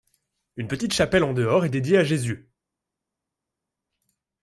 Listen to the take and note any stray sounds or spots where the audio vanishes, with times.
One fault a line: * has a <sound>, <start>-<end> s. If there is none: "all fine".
all fine